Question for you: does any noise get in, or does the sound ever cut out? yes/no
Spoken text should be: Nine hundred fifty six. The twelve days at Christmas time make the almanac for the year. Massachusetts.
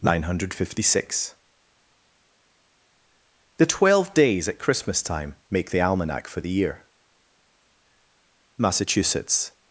no